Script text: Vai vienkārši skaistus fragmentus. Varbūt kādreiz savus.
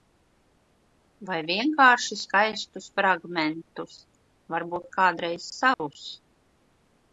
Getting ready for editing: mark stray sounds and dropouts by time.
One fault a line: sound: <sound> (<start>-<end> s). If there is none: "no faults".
sound: dropout (5.7-5.8 s)